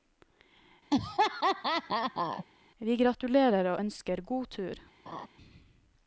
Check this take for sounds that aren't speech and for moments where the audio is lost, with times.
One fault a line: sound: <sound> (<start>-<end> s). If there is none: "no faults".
sound: laugh (0.9-2.4 s)
sound: laugh (5.1-5.3 s)